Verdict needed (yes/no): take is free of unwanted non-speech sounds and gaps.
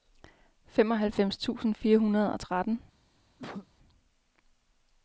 no